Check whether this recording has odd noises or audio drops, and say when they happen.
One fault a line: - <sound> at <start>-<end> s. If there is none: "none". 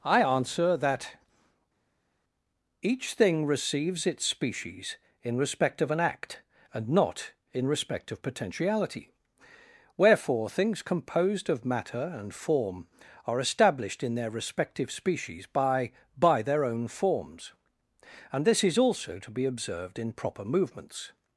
none